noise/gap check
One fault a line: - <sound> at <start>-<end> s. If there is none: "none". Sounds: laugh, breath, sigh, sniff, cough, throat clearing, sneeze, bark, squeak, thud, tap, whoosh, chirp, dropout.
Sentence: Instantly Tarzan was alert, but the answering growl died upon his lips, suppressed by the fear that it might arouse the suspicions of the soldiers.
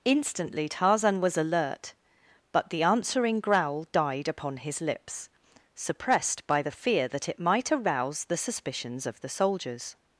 none